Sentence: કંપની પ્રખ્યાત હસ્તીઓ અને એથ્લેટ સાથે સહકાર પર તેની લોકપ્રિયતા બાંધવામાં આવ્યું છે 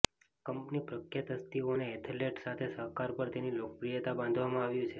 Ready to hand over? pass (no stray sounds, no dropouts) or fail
pass